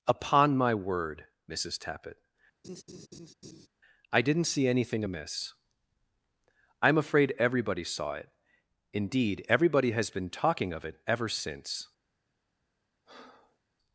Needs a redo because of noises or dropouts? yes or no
yes